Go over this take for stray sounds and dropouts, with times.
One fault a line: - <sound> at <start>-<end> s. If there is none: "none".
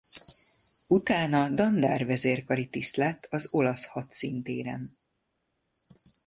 none